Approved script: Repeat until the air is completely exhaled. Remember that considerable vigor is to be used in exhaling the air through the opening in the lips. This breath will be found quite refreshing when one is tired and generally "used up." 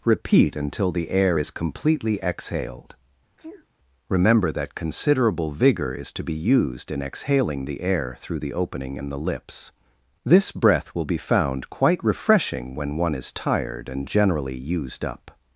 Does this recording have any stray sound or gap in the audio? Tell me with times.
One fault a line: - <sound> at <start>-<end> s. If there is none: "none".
- sneeze at 3.4-3.7 s